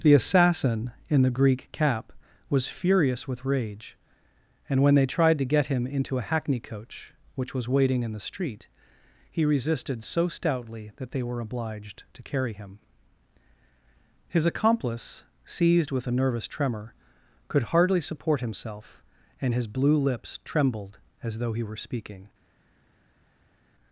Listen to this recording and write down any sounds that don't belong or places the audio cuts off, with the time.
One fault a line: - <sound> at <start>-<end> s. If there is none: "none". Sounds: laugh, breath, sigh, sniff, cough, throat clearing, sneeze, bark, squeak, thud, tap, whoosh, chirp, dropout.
none